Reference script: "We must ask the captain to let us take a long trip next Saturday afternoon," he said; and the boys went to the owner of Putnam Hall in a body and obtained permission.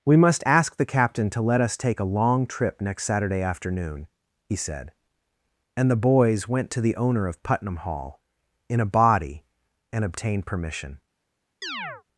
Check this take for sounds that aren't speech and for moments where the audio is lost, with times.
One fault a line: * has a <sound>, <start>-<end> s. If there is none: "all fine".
* has a chirp, 11.6-12.0 s